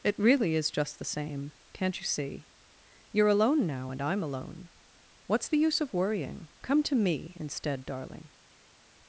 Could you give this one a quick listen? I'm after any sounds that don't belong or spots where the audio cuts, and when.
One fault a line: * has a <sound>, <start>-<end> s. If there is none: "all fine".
all fine